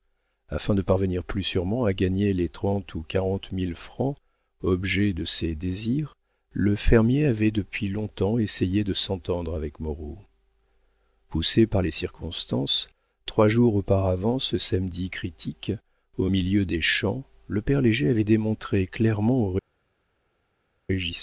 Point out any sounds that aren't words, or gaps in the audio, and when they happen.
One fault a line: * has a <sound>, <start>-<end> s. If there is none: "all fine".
all fine